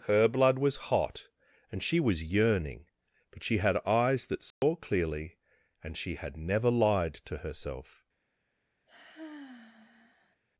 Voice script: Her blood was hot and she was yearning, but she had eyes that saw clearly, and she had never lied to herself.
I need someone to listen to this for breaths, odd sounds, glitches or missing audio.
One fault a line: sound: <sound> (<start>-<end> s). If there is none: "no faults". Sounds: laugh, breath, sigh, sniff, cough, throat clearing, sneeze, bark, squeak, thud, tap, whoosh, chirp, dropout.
sound: dropout (4.5-4.6 s)
sound: sigh (8.9-10.4 s)